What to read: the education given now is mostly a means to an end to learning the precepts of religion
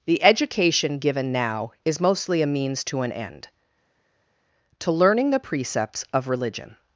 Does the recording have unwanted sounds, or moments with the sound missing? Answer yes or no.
no